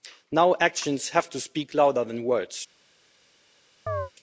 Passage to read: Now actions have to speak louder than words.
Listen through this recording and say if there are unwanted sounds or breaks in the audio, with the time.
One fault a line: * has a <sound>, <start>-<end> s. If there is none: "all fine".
* has a chirp, 3.9-4.1 s